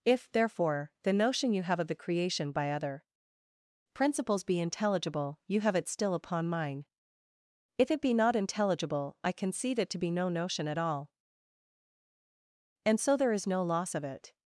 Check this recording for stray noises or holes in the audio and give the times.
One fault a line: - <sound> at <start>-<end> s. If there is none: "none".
none